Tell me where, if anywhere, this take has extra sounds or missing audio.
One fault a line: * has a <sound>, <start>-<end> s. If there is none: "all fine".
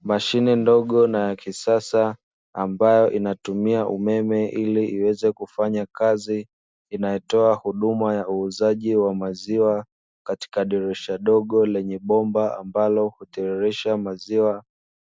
all fine